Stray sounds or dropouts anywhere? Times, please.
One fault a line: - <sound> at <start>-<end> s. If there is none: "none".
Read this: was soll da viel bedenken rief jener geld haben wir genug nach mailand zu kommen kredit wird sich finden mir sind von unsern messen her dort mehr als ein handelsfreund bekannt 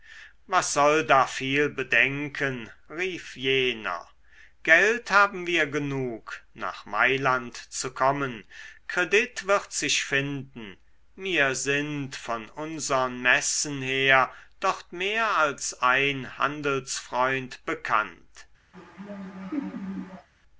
- laugh at 18.7-20.3 s